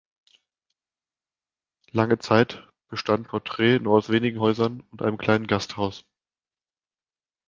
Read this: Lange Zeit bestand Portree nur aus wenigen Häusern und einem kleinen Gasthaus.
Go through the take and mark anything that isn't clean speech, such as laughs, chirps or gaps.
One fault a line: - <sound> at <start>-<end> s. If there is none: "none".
none